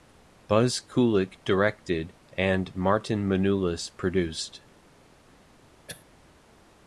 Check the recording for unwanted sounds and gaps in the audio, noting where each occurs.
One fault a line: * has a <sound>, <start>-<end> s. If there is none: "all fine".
* has a throat clearing, 5.9-6.1 s